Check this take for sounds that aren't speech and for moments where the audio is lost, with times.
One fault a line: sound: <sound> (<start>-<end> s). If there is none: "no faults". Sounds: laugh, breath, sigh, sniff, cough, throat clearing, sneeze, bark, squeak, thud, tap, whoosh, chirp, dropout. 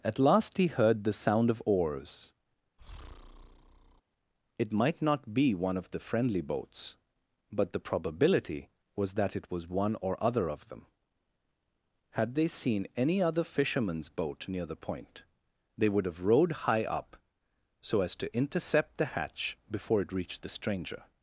sound: breath (2.8-4.0 s)